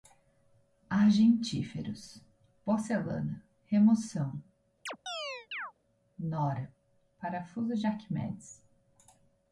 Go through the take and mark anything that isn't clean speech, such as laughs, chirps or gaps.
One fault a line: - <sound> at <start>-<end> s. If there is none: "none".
- chirp at 4.9-5.7 s